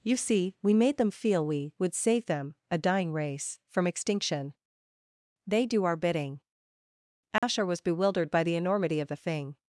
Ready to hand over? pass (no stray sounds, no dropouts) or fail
fail